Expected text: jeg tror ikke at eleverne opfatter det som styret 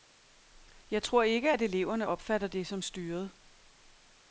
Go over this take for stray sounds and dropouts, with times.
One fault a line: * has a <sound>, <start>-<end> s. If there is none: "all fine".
all fine